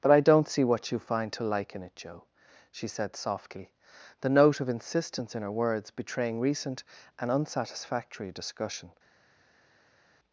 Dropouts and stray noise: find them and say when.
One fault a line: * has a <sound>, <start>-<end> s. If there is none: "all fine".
all fine